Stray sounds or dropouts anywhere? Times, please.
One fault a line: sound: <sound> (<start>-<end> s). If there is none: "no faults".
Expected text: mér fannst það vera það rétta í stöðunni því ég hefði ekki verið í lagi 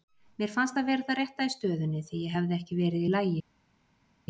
no faults